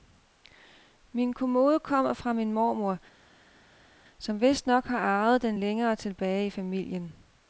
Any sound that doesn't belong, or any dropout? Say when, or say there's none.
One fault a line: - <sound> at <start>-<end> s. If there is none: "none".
none